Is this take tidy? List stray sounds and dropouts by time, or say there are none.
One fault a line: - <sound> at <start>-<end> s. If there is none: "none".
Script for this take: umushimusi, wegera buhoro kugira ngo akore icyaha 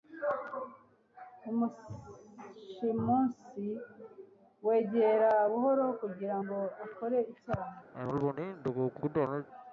- cough at 7.9-9.5 s